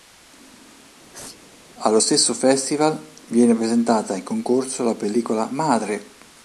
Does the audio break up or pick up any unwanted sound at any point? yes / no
yes